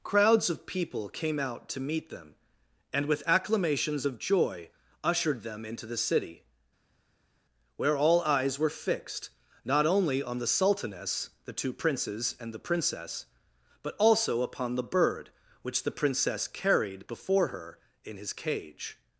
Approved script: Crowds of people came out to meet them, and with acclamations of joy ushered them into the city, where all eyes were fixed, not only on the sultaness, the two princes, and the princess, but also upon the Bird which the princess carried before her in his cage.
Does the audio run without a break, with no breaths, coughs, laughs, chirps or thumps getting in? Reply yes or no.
yes